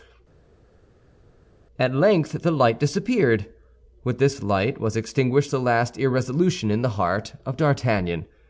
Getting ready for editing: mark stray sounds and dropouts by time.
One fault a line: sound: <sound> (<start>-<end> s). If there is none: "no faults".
no faults